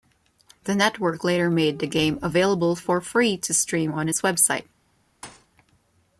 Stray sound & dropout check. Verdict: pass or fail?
fail